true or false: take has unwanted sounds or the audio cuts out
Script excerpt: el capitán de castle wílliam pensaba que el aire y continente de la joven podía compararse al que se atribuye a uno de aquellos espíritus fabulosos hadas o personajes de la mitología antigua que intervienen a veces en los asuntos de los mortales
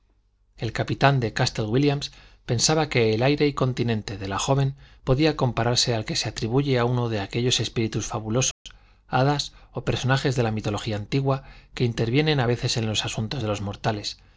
true